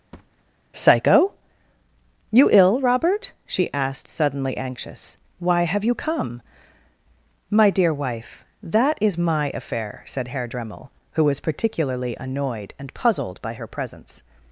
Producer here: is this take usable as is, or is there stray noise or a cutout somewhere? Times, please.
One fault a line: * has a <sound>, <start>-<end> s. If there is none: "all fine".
* has a thud, 0.1-0.4 s